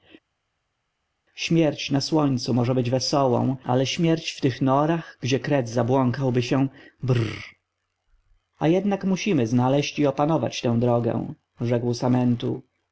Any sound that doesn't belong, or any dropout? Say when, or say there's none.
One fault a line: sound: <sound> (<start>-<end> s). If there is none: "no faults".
no faults